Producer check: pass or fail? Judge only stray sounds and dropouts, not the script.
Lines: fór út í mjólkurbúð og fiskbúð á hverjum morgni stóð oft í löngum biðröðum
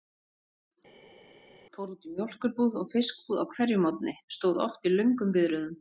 pass